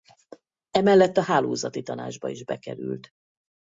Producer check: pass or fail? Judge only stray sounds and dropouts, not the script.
pass